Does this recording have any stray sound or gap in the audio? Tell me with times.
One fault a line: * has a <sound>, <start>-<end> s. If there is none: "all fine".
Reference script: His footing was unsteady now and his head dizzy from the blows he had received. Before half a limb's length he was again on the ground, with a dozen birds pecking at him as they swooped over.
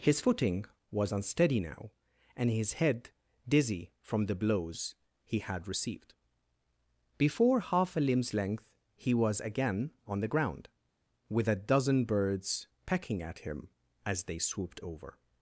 all fine